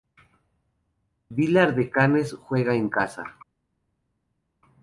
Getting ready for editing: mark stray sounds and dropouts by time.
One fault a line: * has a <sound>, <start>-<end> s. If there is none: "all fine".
all fine